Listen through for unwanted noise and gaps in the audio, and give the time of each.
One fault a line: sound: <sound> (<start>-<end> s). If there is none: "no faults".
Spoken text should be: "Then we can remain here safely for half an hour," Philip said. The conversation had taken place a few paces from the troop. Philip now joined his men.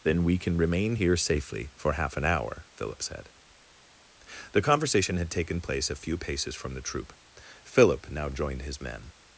no faults